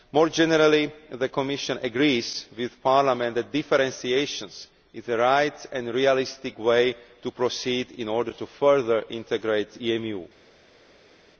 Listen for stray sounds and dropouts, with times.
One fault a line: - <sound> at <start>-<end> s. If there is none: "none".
none